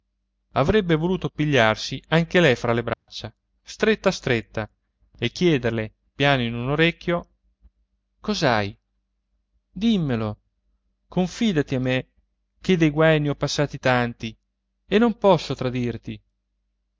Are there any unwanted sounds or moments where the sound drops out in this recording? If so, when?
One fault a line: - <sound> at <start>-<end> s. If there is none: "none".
- dropout at 2.9-3.1 s